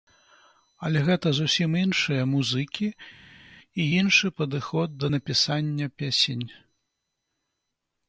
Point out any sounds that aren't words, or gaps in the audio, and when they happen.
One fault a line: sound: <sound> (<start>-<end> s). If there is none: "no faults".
no faults